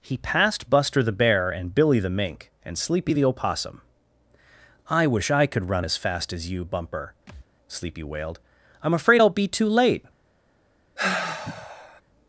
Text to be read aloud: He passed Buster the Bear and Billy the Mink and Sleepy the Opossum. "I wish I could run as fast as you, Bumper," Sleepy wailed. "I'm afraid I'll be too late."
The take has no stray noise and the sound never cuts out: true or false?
false